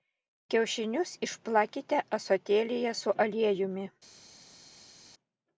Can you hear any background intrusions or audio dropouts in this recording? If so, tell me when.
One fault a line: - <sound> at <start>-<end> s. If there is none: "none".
none